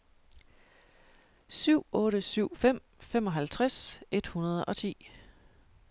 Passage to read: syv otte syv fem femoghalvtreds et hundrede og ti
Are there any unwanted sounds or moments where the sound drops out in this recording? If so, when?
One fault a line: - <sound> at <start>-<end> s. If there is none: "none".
none